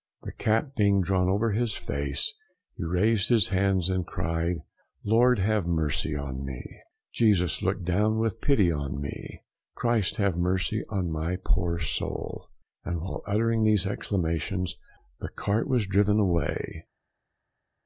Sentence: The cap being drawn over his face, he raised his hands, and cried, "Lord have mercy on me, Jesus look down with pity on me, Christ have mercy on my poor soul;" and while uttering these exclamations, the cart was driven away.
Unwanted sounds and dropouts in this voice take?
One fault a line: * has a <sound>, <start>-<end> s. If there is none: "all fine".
all fine